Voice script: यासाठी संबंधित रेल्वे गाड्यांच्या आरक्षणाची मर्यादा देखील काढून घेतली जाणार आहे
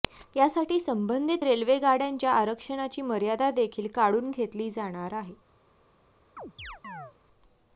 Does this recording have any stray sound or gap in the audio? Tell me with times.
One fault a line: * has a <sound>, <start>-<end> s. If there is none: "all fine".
* has a chirp, 6.4-7.1 s